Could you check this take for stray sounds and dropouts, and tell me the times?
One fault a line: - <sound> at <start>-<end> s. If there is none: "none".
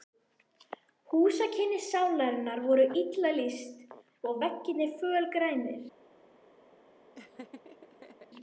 - laugh at 7.1-8.3 s